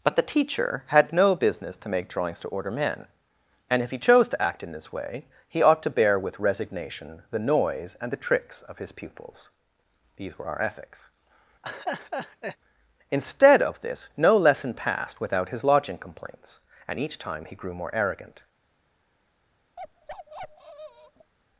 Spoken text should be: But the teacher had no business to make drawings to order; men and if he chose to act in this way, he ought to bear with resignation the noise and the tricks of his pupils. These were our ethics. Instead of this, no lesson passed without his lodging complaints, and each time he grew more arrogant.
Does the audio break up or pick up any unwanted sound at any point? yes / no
yes